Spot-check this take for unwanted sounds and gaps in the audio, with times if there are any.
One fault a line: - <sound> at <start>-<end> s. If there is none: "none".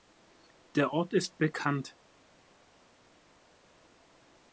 none